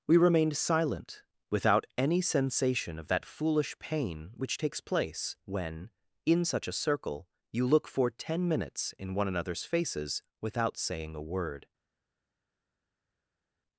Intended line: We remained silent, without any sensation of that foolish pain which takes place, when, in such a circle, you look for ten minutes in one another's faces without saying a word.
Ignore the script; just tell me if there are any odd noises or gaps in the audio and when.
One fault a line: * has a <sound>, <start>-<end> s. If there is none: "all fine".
all fine